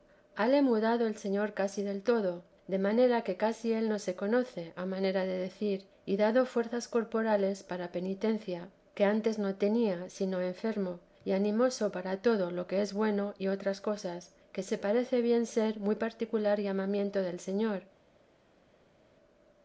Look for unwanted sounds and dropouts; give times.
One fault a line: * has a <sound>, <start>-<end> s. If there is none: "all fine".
all fine